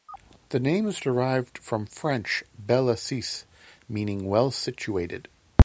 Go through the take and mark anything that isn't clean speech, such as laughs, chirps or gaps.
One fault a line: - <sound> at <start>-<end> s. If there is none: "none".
none